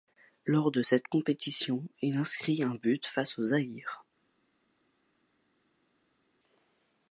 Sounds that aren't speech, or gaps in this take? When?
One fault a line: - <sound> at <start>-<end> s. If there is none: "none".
none